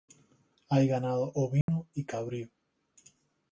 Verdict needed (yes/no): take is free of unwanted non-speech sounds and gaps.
no